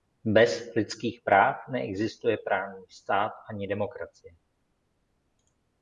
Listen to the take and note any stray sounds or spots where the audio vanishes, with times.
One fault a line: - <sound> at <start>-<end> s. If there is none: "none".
none